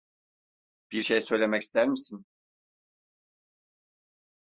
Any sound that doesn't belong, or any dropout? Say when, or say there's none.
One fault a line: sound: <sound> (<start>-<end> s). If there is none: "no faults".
no faults